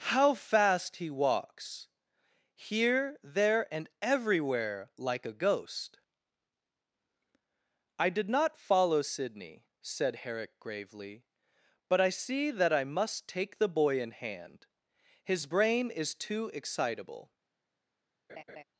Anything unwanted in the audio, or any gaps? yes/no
yes